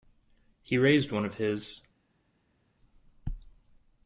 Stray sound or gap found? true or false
false